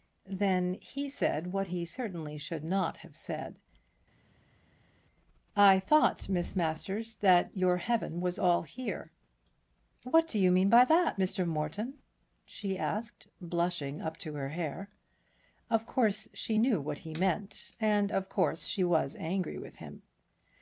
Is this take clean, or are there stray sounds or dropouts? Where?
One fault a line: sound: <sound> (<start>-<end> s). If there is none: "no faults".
no faults